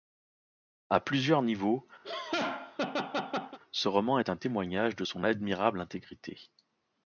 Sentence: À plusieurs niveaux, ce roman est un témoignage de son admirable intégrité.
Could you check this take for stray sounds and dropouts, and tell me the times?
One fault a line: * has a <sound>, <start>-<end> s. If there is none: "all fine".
* has a laugh, 2.0-3.6 s